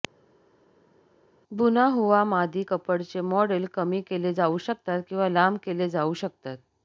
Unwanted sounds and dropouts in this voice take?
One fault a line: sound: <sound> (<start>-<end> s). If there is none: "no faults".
no faults